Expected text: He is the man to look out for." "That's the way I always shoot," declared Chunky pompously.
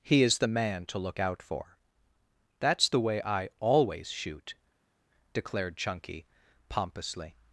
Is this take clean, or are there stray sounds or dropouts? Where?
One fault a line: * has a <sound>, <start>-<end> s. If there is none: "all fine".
all fine